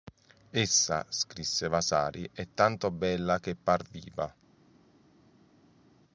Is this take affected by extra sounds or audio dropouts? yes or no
no